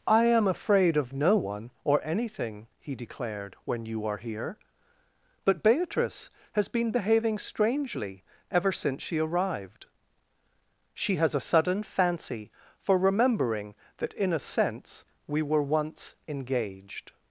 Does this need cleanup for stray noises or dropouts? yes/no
no